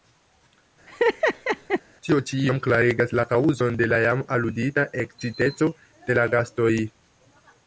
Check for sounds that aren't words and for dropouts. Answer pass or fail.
fail